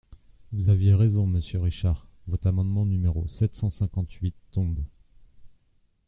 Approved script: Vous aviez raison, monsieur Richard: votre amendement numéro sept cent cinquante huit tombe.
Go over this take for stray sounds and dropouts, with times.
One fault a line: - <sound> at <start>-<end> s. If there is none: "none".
none